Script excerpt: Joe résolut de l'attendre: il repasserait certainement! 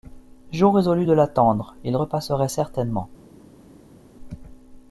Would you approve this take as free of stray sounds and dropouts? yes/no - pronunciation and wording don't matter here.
yes